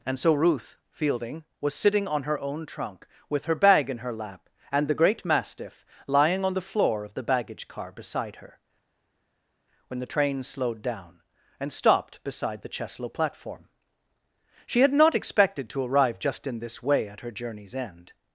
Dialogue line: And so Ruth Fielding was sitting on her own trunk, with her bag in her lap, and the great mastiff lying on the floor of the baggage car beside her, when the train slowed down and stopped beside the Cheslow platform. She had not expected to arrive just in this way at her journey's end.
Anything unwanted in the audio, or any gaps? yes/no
no